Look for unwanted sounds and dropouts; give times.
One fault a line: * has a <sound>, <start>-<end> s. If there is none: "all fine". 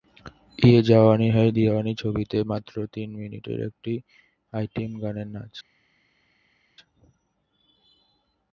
all fine